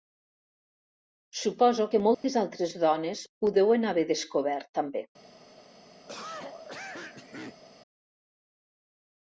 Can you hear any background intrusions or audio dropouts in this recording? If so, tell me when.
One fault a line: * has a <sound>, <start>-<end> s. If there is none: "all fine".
* has a dropout, 2.1-2.2 s
* has a cough, 6.1-7.6 s